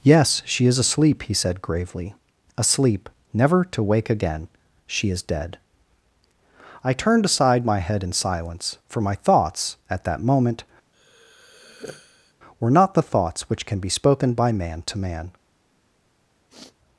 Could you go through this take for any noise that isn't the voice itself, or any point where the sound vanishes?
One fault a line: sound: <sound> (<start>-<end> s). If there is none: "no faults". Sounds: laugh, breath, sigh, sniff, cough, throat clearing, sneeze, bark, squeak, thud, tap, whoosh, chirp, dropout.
sound: sigh (10.9-12.3 s)
sound: sniff (16.5-16.8 s)